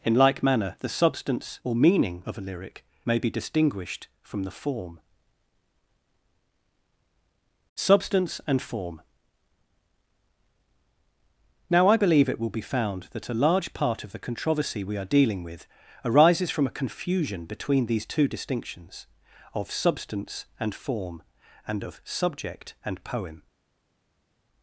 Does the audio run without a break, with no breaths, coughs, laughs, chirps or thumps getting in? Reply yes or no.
yes